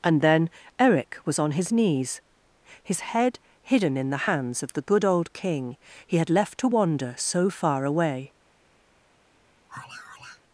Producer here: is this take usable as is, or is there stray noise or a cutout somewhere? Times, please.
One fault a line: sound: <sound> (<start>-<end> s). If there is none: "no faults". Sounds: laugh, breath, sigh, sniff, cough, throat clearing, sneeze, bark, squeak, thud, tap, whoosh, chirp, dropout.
sound: sigh (9.7-10.4 s)